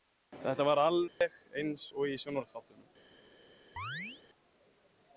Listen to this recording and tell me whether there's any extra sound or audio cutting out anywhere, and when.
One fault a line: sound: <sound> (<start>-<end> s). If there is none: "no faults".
sound: dropout (1.1-1.2 s)
sound: chirp (3.8-4.2 s)